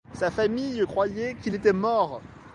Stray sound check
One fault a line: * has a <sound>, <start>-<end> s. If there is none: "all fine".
all fine